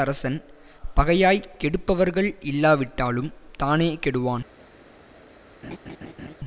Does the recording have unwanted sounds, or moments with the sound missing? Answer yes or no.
yes